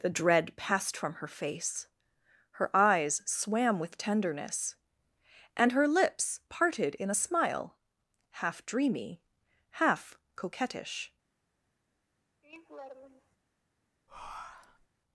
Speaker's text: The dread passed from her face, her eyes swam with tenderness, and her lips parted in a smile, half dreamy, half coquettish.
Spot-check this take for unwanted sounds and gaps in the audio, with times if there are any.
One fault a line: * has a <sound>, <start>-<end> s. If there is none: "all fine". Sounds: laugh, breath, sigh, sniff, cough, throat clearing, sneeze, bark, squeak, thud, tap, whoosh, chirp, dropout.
* has a laugh, 12.4-13.4 s
* has a breath, 14.1-14.9 s